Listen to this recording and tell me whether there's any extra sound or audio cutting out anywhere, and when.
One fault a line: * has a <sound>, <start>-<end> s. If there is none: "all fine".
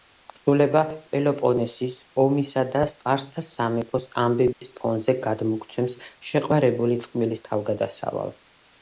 * has a dropout, 4.5-4.6 s